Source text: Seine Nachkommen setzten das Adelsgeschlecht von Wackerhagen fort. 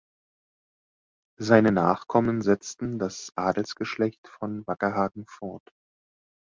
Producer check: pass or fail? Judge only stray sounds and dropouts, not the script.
pass